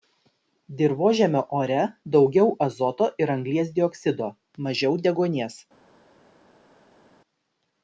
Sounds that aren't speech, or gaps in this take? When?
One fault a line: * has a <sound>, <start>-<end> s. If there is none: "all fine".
all fine